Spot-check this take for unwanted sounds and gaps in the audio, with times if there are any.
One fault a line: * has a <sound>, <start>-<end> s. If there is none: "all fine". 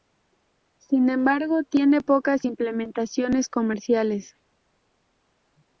all fine